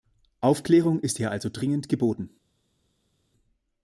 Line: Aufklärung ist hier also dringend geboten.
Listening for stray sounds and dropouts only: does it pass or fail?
pass